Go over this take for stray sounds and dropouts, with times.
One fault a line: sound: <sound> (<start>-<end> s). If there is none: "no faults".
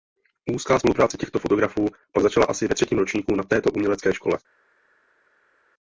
no faults